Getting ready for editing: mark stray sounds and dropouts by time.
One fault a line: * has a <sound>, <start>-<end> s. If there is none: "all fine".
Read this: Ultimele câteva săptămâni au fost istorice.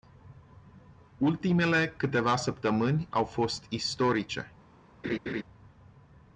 * has a laugh, 5.0-5.4 s